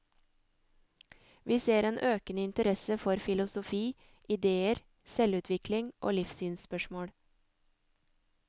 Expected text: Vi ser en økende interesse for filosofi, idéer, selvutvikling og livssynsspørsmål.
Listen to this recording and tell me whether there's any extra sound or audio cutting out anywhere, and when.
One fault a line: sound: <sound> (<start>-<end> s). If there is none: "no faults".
no faults